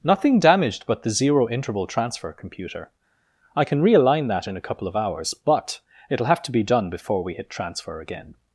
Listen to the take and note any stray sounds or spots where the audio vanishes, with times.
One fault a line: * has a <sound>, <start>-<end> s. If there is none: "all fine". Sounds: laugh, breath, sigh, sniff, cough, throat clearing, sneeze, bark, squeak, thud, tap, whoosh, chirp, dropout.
all fine